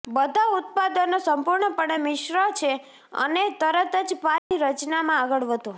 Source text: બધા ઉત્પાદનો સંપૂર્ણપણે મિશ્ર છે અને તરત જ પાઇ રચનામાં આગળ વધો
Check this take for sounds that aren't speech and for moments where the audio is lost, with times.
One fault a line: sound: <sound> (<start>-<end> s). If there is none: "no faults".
sound: dropout (4.4-4.5 s)